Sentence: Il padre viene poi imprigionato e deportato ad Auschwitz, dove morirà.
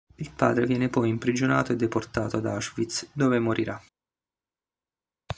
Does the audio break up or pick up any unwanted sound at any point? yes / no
no